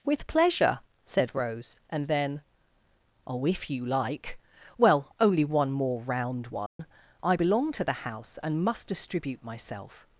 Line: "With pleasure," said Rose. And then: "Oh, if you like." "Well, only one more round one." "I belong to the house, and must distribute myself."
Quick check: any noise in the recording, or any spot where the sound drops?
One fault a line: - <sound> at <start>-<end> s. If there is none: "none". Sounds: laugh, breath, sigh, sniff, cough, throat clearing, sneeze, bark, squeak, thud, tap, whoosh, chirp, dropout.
- dropout at 6.7-6.8 s